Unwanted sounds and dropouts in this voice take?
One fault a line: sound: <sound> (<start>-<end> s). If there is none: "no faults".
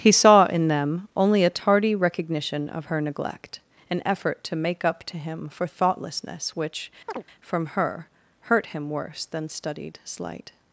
sound: chirp (7.1-7.2 s)